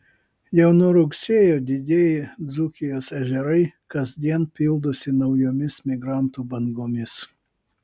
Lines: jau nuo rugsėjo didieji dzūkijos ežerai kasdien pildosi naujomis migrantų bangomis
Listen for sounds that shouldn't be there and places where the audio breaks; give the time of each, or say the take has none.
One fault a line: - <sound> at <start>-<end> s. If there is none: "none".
none